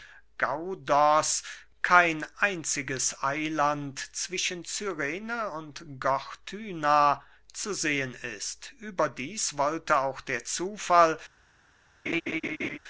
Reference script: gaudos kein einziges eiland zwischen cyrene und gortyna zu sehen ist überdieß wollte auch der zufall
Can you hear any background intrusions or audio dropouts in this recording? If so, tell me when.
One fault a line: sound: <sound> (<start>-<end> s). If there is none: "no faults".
sound: laugh (12.1-12.8 s)